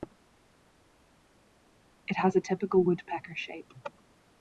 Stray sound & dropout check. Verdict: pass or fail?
pass